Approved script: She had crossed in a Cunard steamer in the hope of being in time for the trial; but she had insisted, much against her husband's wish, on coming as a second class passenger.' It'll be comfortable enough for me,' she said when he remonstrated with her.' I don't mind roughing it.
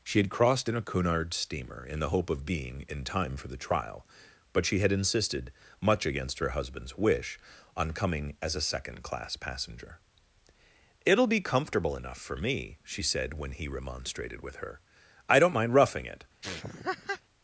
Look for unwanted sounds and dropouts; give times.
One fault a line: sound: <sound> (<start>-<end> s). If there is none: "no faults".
sound: laugh (16.4-17.2 s)